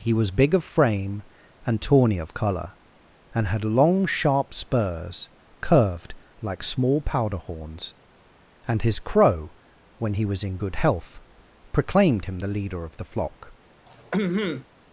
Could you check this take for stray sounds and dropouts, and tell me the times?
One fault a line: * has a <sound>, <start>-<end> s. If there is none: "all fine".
* has a throat clearing, 13.9-14.7 s